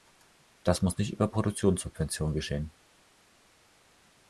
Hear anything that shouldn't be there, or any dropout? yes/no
no